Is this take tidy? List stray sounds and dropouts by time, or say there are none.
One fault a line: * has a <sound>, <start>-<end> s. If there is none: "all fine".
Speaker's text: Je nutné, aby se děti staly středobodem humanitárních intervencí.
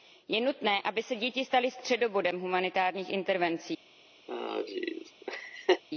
* has a laugh, 4.3-5.8 s